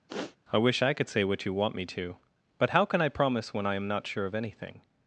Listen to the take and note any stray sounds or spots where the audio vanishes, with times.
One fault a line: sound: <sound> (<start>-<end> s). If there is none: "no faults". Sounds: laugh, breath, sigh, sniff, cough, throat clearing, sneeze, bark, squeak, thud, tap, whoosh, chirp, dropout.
sound: sniff (0.1-0.4 s)